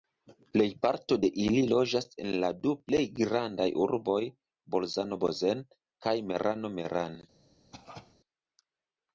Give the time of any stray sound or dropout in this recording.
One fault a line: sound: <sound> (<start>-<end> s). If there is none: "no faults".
sound: cough (7.7-8.2 s)